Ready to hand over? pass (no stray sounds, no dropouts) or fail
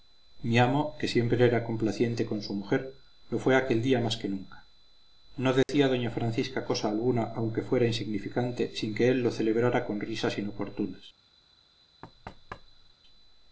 fail